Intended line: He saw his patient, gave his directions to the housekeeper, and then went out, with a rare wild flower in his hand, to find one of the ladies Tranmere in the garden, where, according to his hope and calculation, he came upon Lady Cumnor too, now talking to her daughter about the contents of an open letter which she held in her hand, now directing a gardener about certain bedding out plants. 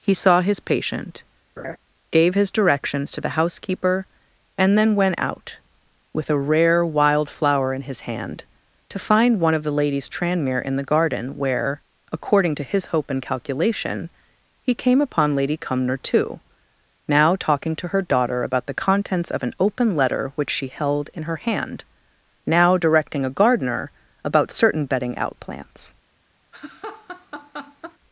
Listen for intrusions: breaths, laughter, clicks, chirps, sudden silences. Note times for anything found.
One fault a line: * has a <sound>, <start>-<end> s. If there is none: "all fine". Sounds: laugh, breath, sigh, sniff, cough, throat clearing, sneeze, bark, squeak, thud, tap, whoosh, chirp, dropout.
* has a laugh, 1.6-1.8 s
* has a laugh, 26.5-28.0 s